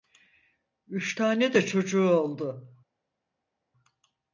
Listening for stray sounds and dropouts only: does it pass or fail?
pass